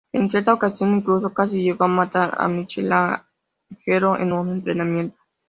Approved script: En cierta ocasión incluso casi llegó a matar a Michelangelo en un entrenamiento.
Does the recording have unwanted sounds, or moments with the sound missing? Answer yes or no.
no